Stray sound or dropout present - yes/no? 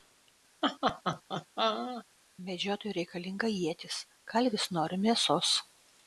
yes